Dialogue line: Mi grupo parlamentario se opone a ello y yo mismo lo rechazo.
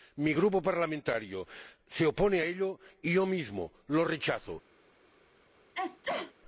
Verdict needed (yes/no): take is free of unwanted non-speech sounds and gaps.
no